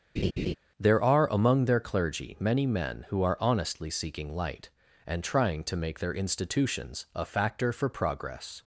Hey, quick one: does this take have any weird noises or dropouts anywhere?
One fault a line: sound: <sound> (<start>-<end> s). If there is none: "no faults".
sound: laugh (0.2-0.5 s)